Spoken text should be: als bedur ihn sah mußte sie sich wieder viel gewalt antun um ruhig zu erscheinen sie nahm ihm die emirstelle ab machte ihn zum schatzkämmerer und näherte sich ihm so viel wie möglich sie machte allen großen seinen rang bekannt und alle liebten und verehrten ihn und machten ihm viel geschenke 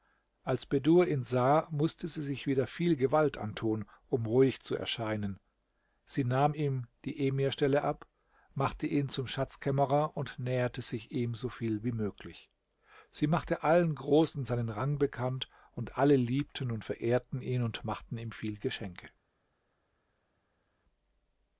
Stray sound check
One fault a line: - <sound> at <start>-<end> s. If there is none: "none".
none